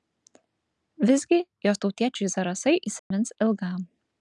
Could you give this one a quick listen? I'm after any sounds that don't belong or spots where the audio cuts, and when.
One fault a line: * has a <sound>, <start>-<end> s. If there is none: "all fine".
* has a dropout, 3.0-3.1 s